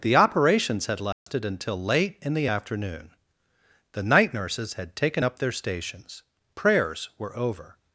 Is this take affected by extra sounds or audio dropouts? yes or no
yes